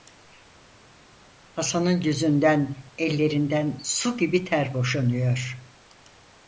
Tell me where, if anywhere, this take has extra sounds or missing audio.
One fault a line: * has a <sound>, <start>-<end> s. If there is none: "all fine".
all fine